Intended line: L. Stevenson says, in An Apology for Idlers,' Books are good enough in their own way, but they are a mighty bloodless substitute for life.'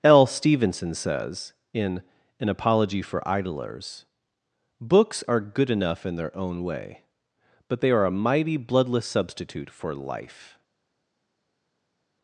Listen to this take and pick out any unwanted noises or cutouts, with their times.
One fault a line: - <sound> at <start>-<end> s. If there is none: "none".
none